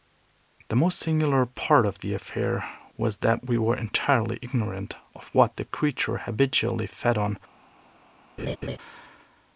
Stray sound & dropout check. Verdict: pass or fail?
fail